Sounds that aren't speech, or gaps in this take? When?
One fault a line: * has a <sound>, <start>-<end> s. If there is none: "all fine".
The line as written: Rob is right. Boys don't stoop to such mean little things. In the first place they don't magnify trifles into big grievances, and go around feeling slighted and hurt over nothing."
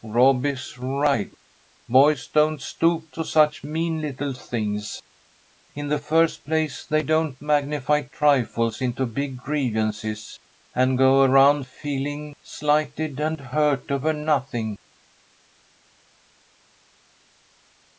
all fine